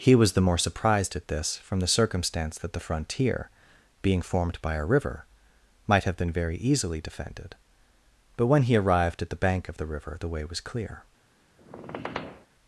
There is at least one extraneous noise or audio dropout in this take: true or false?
true